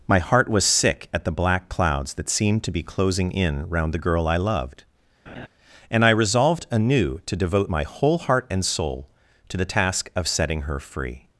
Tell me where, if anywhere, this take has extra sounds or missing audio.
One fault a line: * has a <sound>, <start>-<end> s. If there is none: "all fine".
* has a laugh, 5.3-5.5 s